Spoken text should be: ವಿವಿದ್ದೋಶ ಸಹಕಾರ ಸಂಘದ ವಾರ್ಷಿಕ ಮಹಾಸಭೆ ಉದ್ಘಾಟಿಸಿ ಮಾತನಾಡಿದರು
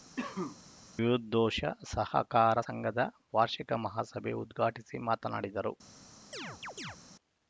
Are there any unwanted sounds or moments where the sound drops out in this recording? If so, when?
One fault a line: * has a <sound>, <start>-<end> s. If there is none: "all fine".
* has a cough, 0.2-0.6 s
* has a chirp, 6.3-7.0 s